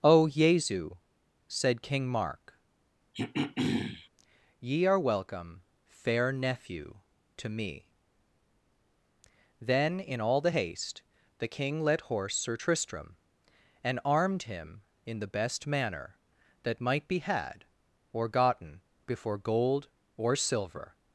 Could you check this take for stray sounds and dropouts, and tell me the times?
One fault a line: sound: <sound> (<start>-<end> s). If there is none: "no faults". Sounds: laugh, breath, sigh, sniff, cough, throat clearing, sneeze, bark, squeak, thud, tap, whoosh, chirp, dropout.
sound: throat clearing (3.1-4.1 s)